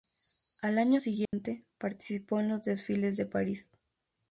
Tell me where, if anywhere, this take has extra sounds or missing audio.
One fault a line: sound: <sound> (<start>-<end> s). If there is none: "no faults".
sound: dropout (1.3-1.3 s)